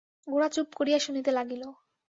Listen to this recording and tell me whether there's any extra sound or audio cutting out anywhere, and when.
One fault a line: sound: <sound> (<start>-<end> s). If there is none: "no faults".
no faults